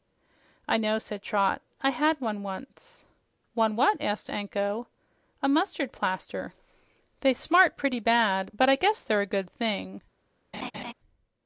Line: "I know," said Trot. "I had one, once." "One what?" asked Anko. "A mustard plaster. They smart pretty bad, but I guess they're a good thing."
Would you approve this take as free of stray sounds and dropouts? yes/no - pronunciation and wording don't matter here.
no